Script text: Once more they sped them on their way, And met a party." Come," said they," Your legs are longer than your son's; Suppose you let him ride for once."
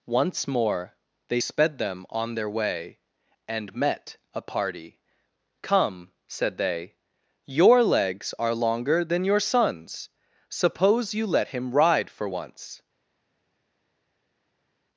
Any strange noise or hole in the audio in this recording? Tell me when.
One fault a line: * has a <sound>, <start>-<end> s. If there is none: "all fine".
all fine